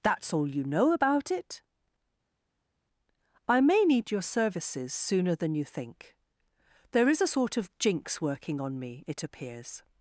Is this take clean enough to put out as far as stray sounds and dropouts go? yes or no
yes